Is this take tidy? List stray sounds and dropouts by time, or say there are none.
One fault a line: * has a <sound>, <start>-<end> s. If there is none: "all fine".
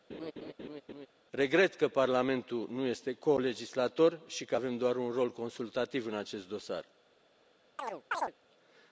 * has a laugh, 0.1-1.1 s
* has a chirp, 7.8-8.3 s